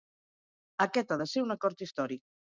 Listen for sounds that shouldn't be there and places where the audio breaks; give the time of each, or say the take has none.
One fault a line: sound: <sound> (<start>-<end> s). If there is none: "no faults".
no faults